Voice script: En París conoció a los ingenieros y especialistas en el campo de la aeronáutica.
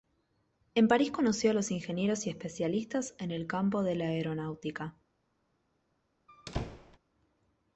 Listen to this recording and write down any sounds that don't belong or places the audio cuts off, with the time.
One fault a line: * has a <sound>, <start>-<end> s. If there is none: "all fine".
* has a squeak, 6.3-7.0 s